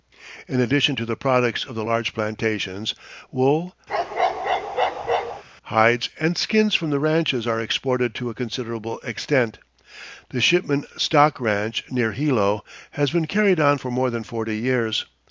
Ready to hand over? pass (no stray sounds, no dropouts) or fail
fail